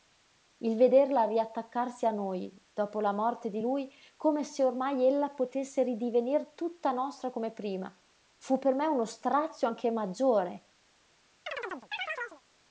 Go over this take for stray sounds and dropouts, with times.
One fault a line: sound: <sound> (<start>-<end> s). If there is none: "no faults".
sound: chirp (11.5-12.4 s)